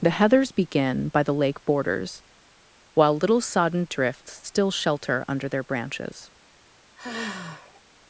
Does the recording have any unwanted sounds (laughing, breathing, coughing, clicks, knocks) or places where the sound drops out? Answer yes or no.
yes